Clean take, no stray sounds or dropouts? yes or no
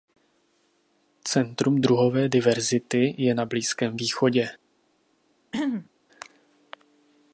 no